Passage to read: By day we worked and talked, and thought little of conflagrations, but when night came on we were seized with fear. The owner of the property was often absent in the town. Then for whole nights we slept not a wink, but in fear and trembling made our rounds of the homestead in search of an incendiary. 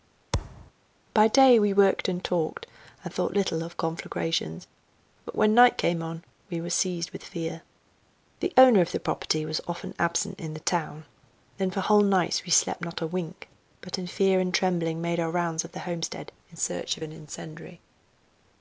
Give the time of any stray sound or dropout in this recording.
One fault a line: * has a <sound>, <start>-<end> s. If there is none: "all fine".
* has a thud, 0.3-0.7 s